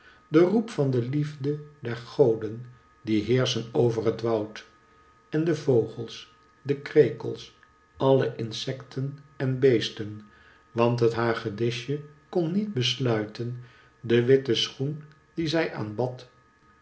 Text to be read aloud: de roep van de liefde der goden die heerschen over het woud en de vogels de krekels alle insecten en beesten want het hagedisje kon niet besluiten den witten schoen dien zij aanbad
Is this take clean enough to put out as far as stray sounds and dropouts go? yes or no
yes